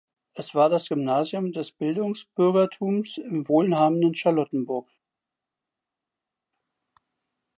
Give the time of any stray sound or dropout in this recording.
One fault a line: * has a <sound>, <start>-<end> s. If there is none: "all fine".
all fine